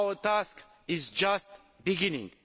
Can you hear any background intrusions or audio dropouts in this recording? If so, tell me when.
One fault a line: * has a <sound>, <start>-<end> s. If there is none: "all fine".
all fine